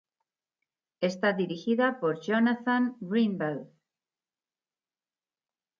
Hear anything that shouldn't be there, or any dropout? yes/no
no